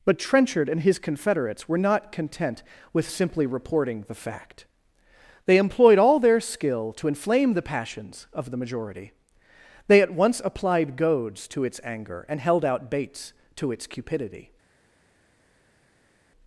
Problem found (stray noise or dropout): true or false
false